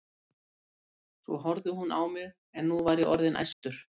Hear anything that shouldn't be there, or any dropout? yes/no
yes